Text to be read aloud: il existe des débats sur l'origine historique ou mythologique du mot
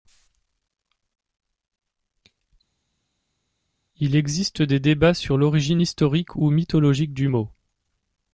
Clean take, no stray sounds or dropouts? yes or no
yes